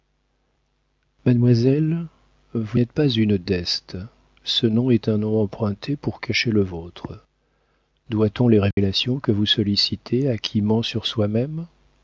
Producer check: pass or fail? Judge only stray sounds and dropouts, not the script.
fail